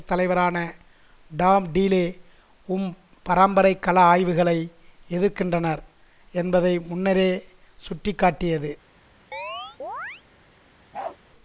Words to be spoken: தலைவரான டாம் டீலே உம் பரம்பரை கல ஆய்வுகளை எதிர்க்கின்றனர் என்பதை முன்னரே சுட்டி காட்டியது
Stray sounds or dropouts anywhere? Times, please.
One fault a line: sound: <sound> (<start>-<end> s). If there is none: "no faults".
sound: chirp (9.3-10.2 s)
sound: bark (10.9-11.2 s)